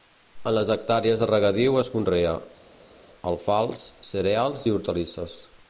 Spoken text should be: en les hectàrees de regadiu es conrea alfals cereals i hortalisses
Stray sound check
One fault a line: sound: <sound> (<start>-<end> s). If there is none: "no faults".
no faults